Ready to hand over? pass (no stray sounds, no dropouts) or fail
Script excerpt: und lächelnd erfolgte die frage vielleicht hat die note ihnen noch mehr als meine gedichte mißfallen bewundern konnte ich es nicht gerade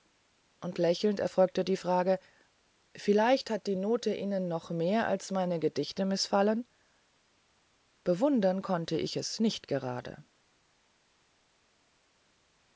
pass